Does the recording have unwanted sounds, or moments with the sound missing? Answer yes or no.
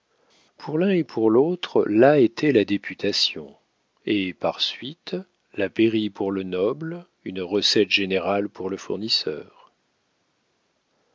no